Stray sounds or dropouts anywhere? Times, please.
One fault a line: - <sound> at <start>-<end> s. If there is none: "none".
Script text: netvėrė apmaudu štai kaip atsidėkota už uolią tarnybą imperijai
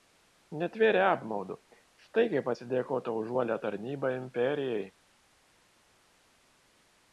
none